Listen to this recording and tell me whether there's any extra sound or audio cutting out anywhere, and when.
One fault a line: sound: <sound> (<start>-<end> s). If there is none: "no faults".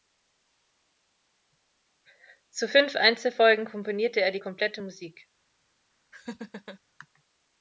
sound: laugh (6.1-6.8 s)